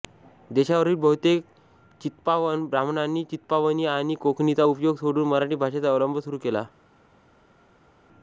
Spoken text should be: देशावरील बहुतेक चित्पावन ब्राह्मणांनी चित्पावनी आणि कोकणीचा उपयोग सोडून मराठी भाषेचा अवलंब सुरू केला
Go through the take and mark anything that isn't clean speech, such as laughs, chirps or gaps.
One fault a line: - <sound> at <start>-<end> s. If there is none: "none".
none